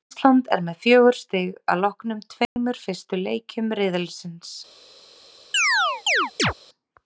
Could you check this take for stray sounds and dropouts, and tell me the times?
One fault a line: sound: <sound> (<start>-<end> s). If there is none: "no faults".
sound: dropout (2.5-2.6 s)
sound: chirp (5.5-6.5 s)